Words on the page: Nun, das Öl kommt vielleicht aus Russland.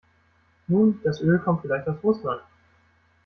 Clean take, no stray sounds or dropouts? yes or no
yes